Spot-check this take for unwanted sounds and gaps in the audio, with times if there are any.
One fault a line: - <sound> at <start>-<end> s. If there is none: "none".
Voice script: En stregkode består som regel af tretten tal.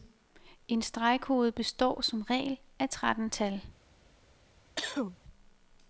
- cough at 4.8-5.2 s